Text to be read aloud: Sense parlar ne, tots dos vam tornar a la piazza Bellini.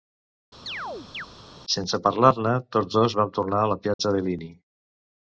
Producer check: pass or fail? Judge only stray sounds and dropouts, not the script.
fail